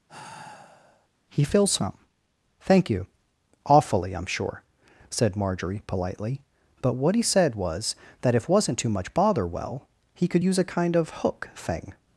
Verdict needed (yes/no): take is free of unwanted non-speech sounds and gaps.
no